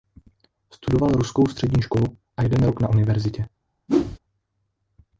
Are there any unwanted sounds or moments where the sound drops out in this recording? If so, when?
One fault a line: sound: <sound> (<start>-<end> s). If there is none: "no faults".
sound: whoosh (3.9-4.2 s)